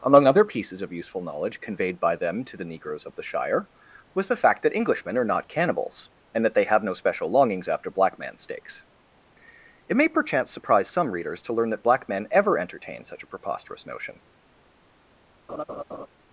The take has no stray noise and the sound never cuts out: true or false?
false